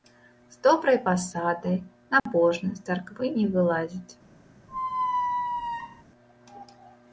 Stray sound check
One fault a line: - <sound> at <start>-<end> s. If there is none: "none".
- dropout at 2.2-2.3 s
- squeak at 4.7-6.0 s